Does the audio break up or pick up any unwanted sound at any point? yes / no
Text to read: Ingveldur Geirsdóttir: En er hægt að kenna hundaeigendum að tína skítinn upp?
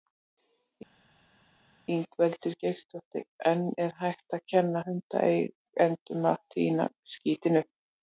no